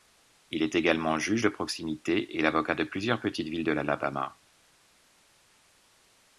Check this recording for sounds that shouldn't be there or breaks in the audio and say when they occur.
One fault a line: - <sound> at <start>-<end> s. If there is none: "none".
none